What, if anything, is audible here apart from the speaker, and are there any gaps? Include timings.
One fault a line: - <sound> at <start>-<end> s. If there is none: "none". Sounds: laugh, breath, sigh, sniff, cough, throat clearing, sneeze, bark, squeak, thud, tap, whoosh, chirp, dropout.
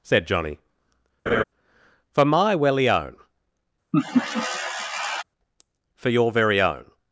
- laugh at 1.3-1.4 s
- laugh at 3.9-5.2 s